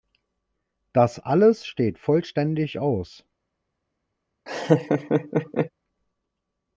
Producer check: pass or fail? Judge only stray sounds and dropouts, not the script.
fail